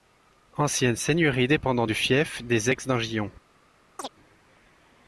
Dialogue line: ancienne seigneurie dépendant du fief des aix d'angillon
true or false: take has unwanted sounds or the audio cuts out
true